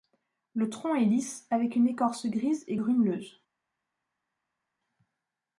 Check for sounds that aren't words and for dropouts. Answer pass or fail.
pass